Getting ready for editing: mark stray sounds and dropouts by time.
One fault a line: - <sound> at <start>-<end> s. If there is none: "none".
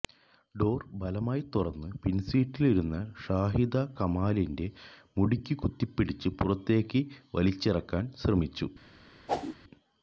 - whoosh at 9.3-9.6 s